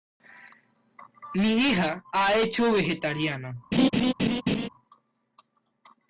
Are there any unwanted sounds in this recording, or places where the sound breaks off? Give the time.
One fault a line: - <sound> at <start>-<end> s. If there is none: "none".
- laugh at 3.7-4.7 s